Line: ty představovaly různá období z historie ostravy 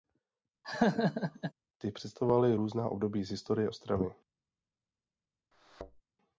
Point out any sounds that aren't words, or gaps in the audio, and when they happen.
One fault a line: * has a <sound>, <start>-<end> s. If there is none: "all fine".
* has a laugh, 0.6-1.5 s
* has a thud, 5.5-6.0 s